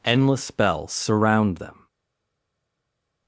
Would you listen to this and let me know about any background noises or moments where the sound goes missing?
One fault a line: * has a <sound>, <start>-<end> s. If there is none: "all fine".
all fine